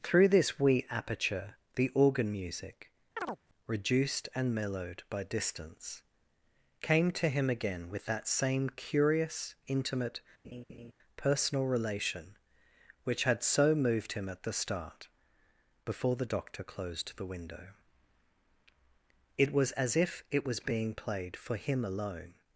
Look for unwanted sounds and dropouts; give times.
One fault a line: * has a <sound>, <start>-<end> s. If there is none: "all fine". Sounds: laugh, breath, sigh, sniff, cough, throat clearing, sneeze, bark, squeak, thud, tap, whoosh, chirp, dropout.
* has a chirp, 3.2-3.4 s
* has a laugh, 10.4-10.9 s